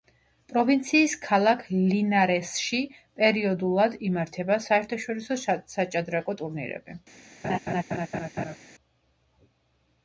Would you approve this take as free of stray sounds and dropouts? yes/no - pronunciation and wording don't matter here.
no